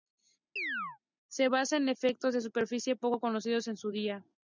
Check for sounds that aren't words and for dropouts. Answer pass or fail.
fail